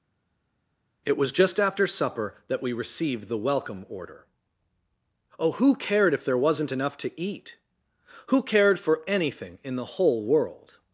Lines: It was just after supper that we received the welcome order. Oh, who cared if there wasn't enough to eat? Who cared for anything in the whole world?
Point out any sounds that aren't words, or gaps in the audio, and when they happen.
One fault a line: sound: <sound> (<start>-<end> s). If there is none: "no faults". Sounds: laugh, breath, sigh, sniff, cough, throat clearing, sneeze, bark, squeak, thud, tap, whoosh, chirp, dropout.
no faults